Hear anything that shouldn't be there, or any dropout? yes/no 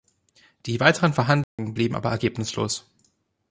yes